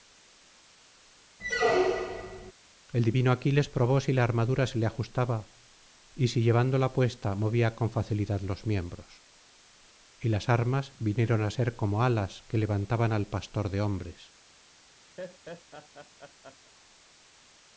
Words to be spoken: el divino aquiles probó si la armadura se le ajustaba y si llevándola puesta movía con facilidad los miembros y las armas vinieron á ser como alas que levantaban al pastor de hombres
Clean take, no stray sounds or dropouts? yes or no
no